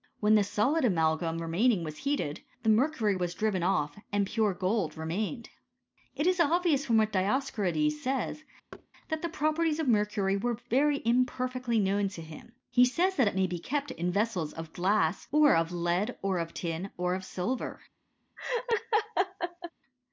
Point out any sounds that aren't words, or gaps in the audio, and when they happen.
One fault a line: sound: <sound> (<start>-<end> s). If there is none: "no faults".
sound: thud (8.7-8.9 s)
sound: laugh (18.4-19.7 s)